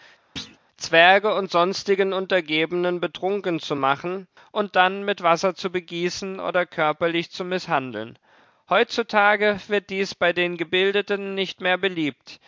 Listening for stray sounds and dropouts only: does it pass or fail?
fail